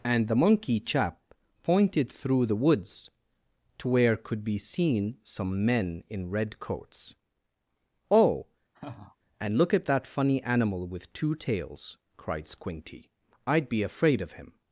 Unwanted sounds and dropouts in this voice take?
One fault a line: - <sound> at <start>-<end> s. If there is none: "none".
- laugh at 8.7-9.2 s